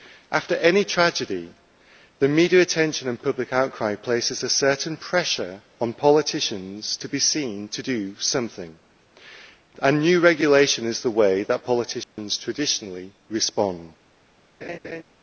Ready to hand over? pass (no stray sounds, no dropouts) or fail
fail